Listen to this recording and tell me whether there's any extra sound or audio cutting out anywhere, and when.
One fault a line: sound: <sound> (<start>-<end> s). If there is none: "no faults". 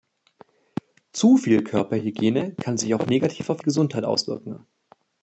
no faults